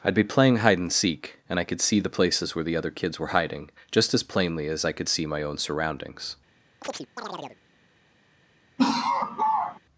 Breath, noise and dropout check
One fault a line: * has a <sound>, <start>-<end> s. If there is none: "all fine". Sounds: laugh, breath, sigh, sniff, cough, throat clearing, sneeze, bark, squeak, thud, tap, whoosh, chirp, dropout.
* has a chirp, 6.8-7.6 s
* has a laugh, 8.8-9.8 s